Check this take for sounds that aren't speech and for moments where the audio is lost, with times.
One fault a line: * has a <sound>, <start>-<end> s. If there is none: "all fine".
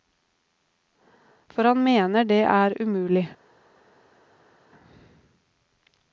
all fine